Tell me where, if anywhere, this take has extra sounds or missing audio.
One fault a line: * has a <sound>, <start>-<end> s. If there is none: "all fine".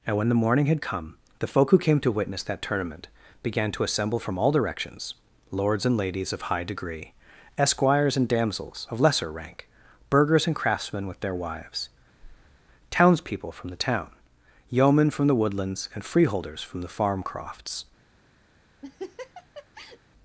* has a breath, 12.2-12.6 s
* has a laugh, 18.8-20.0 s